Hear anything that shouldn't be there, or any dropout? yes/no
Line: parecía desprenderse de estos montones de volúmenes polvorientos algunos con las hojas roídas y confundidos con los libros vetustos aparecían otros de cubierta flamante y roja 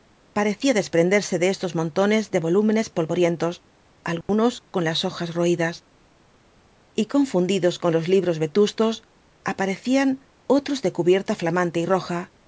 yes